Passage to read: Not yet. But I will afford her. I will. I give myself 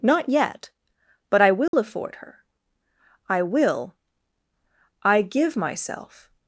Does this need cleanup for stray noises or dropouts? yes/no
yes